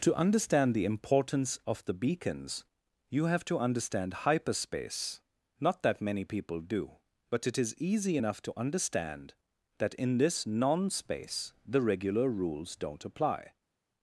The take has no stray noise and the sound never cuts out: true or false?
true